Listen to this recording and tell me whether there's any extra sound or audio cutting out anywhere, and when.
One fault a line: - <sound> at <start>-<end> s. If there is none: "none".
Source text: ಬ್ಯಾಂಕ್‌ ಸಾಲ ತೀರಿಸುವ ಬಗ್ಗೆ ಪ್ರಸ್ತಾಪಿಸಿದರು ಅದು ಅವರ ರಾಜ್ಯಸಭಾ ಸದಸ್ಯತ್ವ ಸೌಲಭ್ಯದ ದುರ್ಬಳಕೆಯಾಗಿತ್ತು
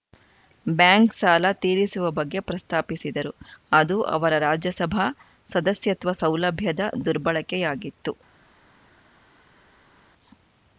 none